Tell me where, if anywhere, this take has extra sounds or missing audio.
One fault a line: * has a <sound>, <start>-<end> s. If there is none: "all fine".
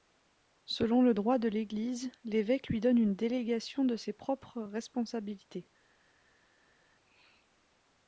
all fine